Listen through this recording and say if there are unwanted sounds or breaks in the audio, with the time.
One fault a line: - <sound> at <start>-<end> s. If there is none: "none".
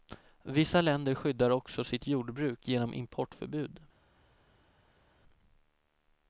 none